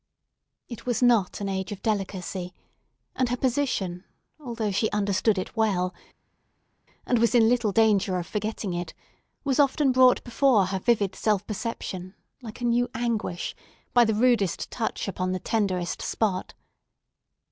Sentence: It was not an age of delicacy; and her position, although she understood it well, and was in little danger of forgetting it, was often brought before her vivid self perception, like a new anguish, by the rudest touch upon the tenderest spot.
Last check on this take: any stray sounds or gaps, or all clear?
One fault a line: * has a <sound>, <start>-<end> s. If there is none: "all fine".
all fine